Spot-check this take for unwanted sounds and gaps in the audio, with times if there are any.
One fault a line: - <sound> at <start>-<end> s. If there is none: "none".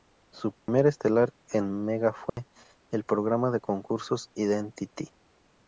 - dropout at 0.6-0.7 s
- dropout at 2.3-2.4 s